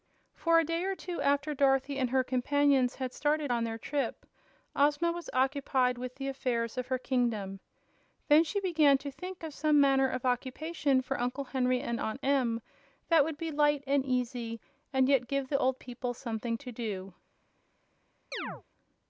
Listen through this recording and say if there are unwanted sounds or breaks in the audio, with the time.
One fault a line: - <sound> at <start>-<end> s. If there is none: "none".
- chirp at 18.3-18.6 s